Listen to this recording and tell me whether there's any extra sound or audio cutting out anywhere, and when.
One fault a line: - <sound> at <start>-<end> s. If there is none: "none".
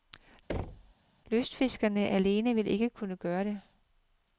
- thud at 0.5-0.9 s